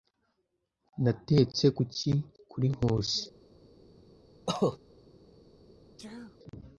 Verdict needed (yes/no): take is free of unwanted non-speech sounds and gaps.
no